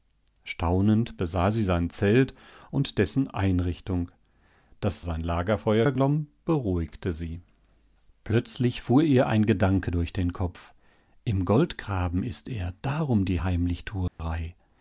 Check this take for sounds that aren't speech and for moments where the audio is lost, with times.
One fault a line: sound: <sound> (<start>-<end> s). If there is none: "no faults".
sound: dropout (14.1-14.2 s)